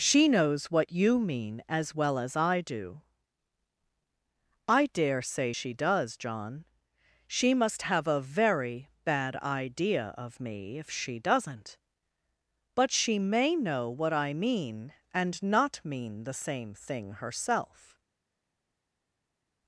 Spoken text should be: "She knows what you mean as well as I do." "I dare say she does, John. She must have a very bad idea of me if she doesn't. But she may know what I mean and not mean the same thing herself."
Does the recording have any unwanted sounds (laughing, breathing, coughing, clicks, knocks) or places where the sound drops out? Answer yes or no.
no